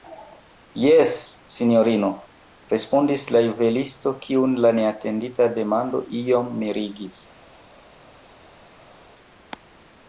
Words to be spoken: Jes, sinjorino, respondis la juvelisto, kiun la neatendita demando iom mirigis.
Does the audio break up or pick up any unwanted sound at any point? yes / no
no